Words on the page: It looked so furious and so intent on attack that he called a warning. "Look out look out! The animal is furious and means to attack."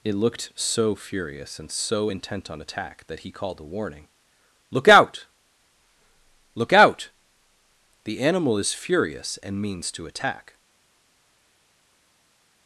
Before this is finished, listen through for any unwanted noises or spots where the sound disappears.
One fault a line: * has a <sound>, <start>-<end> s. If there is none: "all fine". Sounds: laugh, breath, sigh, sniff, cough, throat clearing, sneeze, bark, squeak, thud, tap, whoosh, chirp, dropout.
all fine